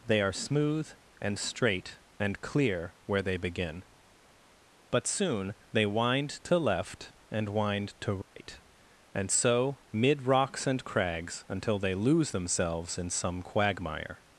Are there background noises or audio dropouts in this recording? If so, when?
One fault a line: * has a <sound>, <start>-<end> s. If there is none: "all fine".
* has a dropout, 8.2-8.4 s